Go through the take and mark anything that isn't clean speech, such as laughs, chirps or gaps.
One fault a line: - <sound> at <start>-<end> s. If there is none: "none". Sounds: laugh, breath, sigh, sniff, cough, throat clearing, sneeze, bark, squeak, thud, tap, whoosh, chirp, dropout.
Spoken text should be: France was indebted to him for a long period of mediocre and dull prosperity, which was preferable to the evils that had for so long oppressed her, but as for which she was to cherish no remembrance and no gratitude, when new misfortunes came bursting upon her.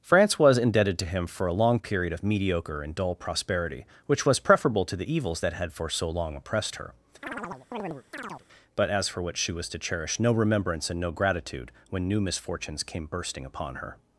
- chirp at 7.2-8.5 s